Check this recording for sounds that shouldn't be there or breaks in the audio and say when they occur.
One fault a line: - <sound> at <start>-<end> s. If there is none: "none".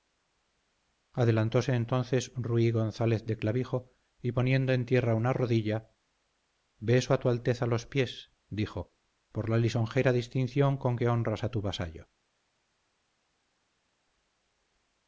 none